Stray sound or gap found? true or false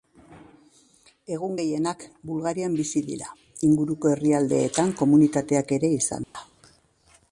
true